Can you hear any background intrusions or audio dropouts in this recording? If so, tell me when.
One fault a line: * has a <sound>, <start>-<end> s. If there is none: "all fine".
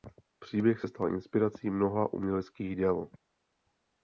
all fine